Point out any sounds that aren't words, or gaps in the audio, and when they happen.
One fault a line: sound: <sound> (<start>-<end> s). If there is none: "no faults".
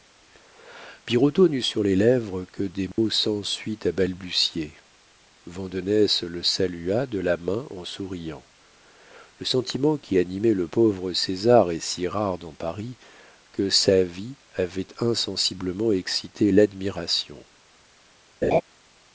sound: dropout (2.9-3.0 s)
sound: laugh (18.4-18.6 s)